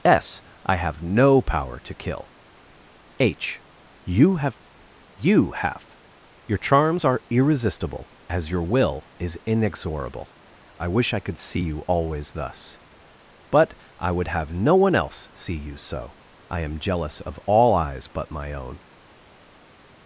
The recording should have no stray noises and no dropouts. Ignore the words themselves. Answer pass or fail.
pass